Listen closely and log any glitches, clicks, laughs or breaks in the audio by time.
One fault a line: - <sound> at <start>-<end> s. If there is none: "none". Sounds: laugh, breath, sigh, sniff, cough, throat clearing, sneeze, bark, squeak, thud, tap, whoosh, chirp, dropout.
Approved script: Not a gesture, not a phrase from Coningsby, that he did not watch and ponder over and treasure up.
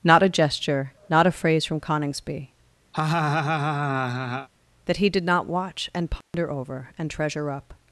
- laugh at 2.9-4.5 s
- dropout at 6.2-6.3 s